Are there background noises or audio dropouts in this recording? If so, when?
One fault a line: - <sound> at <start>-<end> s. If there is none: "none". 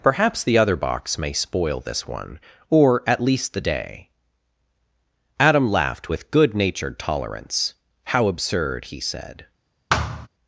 - thud at 9.9-10.3 s